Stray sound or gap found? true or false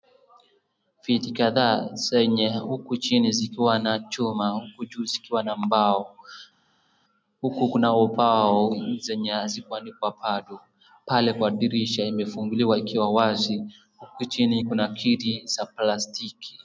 false